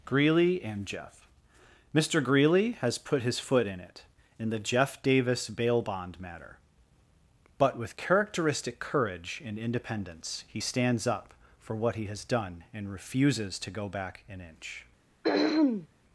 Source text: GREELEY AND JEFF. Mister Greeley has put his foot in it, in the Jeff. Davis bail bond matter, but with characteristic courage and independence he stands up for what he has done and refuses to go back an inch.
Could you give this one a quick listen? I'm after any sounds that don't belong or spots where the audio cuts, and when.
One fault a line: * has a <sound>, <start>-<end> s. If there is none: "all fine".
* has a throat clearing, 15.2-15.9 s